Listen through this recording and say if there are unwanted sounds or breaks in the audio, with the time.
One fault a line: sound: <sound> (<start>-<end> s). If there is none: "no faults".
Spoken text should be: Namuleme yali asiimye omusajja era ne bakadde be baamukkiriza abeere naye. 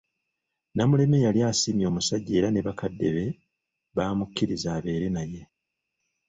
no faults